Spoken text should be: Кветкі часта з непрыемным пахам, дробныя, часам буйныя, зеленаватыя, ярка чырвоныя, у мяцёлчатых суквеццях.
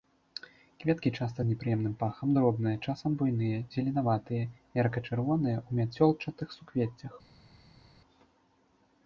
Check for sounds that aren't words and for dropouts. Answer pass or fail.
pass